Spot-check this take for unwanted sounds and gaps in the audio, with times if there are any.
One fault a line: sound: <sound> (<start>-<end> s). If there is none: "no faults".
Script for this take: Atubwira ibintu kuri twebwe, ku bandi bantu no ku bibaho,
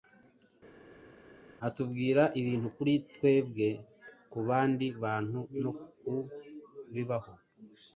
no faults